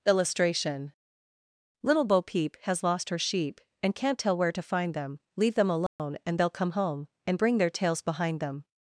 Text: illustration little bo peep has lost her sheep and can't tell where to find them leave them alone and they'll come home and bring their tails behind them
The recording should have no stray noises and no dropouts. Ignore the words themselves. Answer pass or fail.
fail